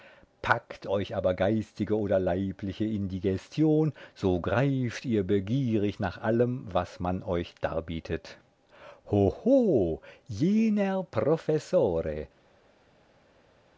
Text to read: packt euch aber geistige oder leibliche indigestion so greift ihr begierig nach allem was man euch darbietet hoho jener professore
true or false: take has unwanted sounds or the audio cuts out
false